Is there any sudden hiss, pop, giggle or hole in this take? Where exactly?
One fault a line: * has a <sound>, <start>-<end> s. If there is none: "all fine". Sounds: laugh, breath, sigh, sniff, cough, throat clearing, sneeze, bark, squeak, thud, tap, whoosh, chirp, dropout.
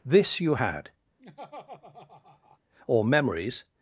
* has a laugh, 1.2-2.6 s